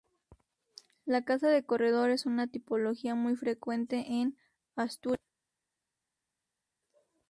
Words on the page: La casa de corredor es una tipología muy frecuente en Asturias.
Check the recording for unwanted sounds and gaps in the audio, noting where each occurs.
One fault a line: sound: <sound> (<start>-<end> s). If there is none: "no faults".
no faults